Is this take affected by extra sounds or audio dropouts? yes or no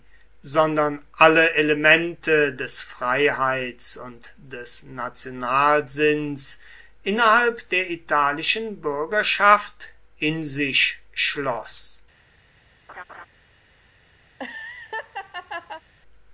yes